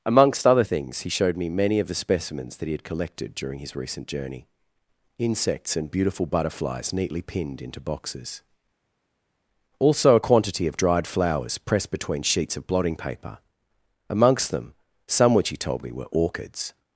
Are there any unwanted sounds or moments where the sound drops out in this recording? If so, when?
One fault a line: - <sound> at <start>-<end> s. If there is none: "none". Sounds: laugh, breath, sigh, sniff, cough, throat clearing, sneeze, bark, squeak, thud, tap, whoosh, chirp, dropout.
none